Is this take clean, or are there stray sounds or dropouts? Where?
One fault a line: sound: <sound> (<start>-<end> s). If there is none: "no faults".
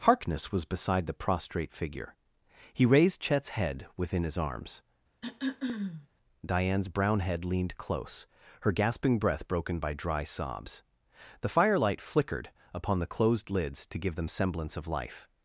sound: throat clearing (5.2-6.1 s)